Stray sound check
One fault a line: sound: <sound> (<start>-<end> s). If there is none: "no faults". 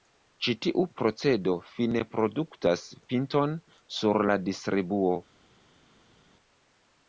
no faults